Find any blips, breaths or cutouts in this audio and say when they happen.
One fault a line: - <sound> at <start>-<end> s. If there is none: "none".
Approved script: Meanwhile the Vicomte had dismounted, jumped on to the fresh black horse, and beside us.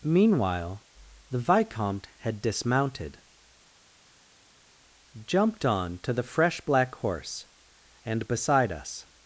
none